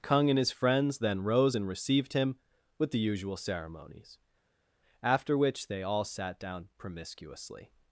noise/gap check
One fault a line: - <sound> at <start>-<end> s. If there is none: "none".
none